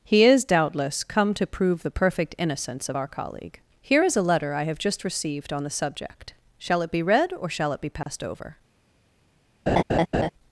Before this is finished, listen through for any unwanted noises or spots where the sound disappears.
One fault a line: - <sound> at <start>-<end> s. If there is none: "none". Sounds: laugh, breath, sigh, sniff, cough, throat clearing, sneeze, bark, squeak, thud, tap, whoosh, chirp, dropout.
- dropout at 8.0-8.1 s
- laugh at 9.7-10.3 s